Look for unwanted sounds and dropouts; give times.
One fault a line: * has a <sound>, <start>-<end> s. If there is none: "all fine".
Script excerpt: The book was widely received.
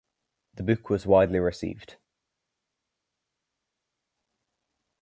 all fine